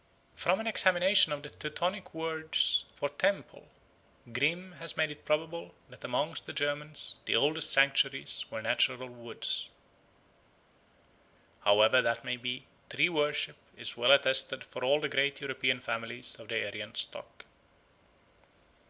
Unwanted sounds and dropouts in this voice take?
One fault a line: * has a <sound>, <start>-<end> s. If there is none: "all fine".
all fine